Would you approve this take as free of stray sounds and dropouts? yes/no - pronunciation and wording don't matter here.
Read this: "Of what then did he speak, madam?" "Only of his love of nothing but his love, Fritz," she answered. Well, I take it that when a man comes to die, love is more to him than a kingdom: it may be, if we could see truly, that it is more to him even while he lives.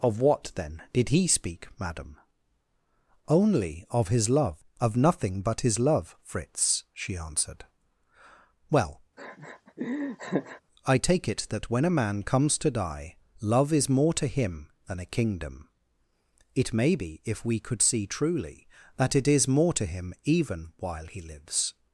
no